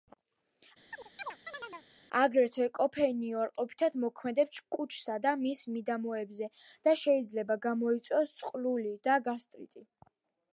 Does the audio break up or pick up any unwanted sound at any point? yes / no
yes